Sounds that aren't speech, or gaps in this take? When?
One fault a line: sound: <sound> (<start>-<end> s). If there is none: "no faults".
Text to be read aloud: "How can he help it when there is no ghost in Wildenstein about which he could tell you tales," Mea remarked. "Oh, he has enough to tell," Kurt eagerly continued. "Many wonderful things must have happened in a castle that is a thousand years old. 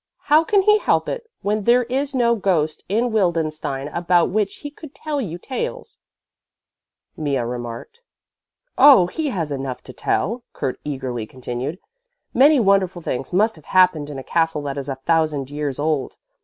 no faults